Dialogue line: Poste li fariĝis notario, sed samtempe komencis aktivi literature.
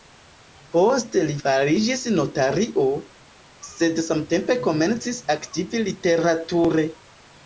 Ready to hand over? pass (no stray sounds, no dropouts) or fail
pass